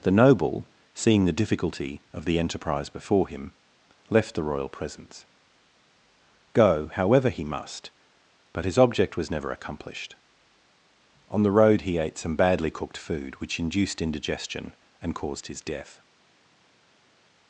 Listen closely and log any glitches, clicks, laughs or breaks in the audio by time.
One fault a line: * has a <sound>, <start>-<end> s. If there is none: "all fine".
all fine